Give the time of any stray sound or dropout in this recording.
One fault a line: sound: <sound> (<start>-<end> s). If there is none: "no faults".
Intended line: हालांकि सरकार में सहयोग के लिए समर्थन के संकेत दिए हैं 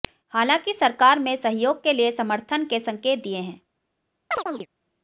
sound: chirp (4.3-4.7 s)